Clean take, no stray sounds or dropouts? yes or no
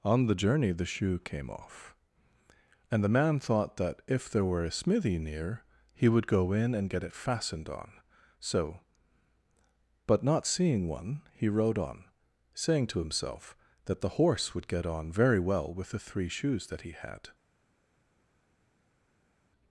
yes